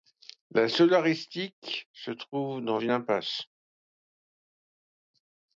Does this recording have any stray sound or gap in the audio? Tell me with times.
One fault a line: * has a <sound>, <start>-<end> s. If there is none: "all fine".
all fine